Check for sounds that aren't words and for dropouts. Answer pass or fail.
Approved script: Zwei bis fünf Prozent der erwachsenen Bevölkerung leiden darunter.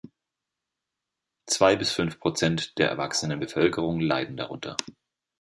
pass